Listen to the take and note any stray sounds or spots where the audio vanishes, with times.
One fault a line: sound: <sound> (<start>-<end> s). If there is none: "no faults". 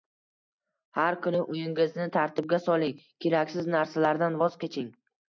no faults